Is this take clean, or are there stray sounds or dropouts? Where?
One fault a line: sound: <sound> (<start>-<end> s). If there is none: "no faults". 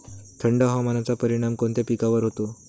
no faults